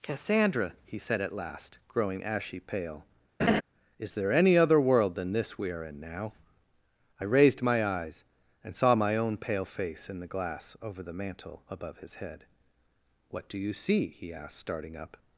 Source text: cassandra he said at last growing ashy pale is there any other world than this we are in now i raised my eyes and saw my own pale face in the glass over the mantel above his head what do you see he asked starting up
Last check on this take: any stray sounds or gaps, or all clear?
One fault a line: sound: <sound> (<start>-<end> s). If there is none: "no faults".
sound: laugh (3.4-3.6 s)